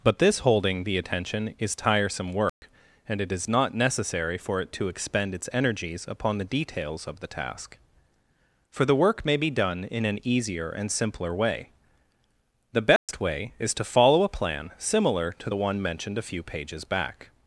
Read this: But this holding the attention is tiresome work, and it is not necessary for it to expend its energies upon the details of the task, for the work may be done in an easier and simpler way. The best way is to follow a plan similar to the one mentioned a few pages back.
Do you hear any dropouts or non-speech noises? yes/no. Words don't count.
yes